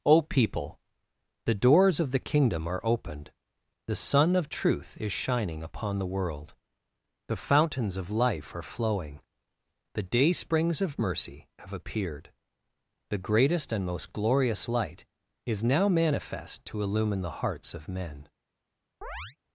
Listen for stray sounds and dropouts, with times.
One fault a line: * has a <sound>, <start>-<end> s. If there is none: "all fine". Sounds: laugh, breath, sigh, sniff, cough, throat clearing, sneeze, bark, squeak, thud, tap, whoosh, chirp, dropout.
* has a chirp, 19.0-19.4 s